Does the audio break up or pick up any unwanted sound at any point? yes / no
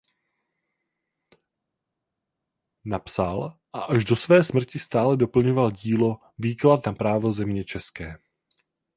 no